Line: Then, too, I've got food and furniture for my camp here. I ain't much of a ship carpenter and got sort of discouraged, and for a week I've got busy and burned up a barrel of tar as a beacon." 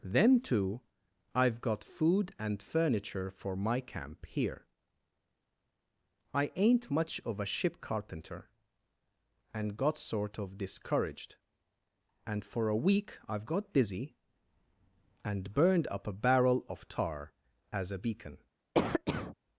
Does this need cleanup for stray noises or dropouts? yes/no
yes